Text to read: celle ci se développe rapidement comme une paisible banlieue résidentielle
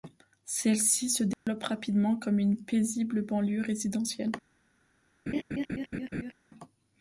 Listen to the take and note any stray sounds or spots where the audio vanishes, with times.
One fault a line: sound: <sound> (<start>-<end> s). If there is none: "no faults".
sound: dropout (1.3-1.5 s)
sound: laugh (5.3-6.3 s)